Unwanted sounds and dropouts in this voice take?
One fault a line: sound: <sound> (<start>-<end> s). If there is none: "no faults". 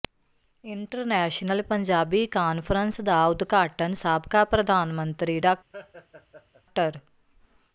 sound: laugh (5.7-6.6 s)